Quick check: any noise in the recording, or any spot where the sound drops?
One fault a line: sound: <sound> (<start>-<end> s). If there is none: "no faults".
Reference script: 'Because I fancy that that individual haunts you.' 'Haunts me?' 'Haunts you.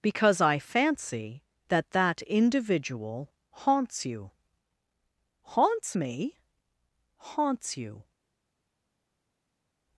no faults